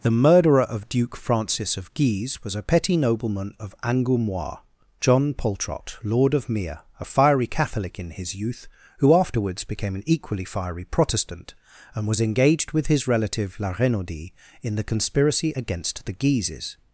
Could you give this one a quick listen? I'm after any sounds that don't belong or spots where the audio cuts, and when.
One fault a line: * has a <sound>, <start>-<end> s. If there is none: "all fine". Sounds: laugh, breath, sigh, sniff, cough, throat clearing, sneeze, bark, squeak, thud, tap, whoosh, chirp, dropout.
all fine